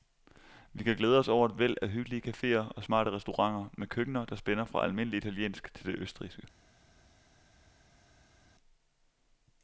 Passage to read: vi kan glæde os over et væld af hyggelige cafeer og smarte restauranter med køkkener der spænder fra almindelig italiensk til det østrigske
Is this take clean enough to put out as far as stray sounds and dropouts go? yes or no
yes